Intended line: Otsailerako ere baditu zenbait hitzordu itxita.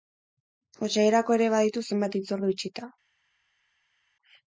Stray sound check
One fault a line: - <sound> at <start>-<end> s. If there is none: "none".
none